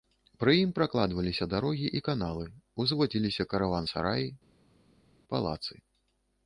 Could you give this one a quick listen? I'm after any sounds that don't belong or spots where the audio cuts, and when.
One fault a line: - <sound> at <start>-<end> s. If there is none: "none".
none